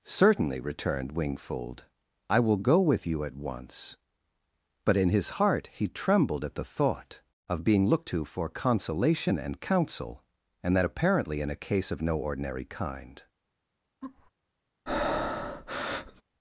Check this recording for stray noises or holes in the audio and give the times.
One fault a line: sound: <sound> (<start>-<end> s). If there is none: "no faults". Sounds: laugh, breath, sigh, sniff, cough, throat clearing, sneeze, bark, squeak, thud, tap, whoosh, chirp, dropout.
sound: laugh (14.0-14.3 s)
sound: breath (14.9-16.2 s)